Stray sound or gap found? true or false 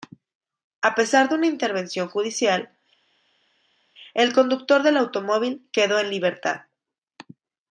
false